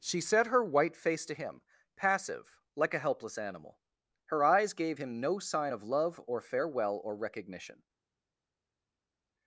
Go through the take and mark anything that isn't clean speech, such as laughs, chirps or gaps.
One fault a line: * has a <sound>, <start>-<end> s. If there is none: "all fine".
all fine